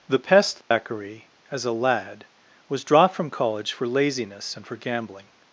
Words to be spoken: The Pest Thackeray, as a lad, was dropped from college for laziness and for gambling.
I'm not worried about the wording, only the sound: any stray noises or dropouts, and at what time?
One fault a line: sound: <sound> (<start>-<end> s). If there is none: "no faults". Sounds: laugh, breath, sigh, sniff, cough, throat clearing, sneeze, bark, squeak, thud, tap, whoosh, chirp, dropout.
sound: dropout (0.6-0.7 s)